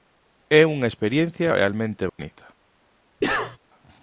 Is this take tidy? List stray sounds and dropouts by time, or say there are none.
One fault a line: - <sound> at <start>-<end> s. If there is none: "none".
- dropout at 2.1-2.2 s
- cough at 3.2-3.6 s